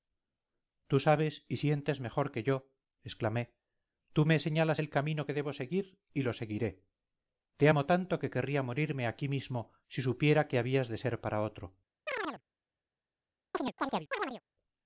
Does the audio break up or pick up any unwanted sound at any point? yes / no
yes